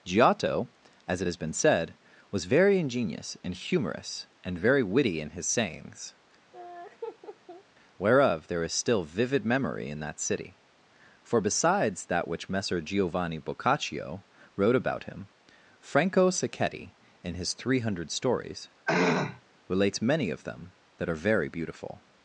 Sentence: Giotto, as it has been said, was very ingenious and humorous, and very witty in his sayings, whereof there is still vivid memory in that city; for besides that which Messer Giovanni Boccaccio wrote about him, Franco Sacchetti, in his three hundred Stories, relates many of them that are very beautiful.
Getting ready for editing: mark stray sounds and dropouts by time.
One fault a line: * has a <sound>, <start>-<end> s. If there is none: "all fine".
* has a laugh, 6.5-7.6 s
* has a throat clearing, 18.9-19.4 s